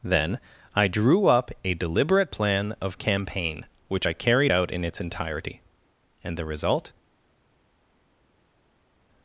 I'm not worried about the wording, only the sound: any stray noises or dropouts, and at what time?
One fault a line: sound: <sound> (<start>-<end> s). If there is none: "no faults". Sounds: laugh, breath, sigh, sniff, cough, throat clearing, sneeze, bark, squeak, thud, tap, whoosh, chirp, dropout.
no faults